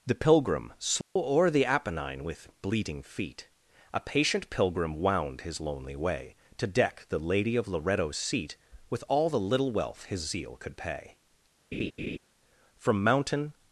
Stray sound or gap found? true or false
true